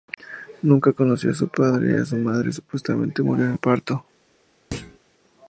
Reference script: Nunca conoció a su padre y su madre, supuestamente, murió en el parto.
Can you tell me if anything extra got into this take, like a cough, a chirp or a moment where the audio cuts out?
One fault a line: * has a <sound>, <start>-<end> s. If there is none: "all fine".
* has a thud, 4.7-5.0 s